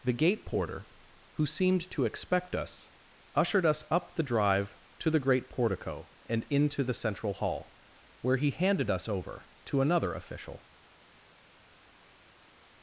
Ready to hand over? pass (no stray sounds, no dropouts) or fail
pass